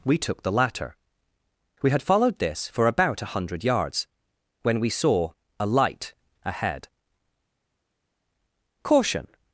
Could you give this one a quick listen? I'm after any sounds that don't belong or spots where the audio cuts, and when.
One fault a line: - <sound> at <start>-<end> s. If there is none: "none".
none